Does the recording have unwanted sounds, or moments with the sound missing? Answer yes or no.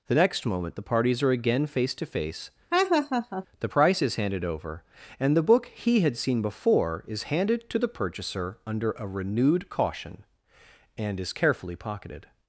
yes